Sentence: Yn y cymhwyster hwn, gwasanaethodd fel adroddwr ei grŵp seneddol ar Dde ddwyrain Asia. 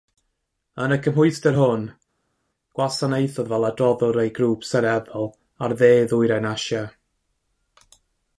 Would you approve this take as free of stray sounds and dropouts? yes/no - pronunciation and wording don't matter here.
yes